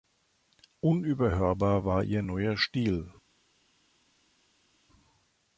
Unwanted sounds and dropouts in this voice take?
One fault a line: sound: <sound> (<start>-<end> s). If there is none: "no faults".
no faults